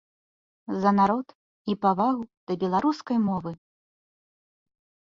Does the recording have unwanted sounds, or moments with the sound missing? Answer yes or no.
no